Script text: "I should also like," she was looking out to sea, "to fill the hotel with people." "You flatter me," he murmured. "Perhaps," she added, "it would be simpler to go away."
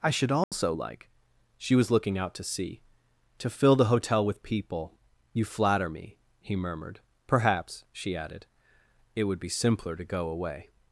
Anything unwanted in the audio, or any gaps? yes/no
yes